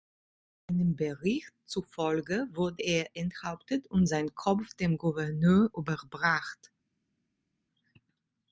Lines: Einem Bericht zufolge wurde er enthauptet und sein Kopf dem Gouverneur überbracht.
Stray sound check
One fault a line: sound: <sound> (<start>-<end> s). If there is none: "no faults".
no faults